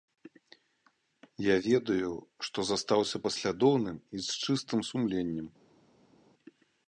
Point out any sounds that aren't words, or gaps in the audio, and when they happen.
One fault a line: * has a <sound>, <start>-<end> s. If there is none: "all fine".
all fine